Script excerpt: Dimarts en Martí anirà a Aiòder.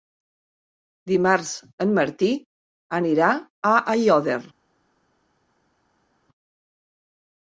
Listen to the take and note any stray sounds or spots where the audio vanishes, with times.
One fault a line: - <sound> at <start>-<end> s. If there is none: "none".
none